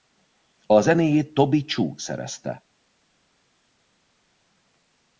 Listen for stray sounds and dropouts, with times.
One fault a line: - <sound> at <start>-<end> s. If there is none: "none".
none